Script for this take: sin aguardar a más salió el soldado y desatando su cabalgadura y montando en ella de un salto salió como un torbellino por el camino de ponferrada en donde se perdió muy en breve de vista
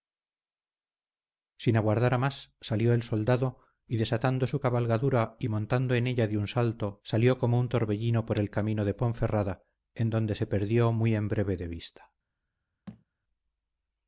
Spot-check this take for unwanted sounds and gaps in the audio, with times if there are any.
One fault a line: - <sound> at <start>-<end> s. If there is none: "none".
- thud at 12.9-13.0 s